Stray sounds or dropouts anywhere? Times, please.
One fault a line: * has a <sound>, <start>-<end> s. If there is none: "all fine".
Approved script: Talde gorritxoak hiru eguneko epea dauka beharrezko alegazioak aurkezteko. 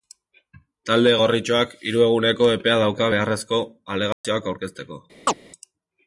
* has a dropout, 4.1-4.2 s
* has a chirp, 5.3-5.4 s